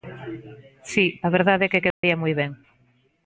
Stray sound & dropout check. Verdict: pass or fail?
fail